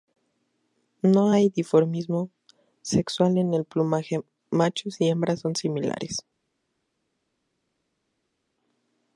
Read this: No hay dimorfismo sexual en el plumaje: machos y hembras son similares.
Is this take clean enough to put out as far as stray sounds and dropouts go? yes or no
yes